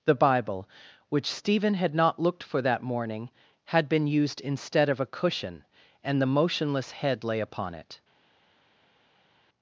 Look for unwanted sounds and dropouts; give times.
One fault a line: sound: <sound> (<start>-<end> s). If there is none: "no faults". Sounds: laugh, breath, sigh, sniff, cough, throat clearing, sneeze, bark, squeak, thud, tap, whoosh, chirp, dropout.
no faults